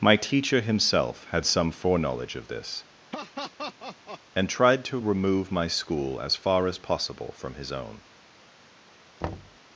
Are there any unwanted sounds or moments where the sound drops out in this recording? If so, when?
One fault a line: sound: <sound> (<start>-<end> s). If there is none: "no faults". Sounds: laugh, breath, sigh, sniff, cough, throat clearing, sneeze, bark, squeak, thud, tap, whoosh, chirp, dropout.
sound: laugh (3.1-4.2 s)
sound: thud (9.2-9.6 s)